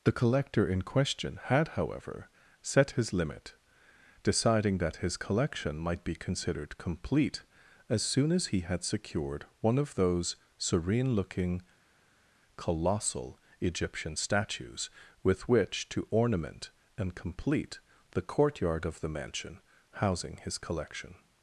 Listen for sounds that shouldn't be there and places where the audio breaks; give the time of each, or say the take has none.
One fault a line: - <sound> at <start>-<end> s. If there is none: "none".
none